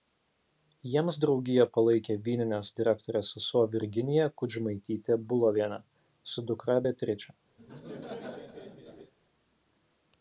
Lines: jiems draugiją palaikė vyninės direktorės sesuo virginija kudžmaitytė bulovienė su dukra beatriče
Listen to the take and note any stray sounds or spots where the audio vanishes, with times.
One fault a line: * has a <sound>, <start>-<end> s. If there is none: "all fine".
* has a laugh, 7.6-9.1 s